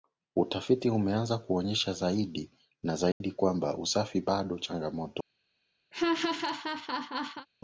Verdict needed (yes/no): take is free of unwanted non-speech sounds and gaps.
no